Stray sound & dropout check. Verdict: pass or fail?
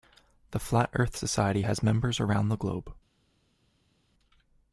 pass